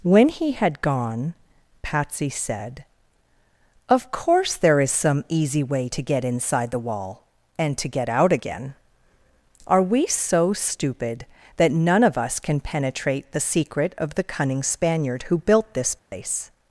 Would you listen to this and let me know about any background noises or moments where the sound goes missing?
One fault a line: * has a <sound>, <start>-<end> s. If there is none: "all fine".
* has a dropout, 16.0-16.1 s